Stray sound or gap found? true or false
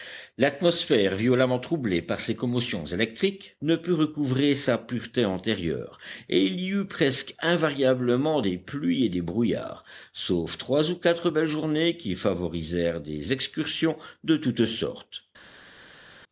false